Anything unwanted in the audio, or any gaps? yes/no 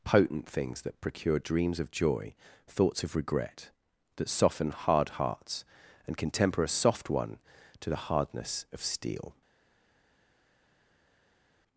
no